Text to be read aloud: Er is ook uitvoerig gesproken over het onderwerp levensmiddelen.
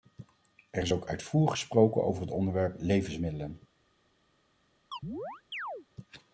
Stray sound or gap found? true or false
true